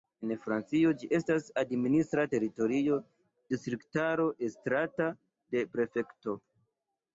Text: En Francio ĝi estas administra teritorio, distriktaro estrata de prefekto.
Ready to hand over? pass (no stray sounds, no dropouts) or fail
pass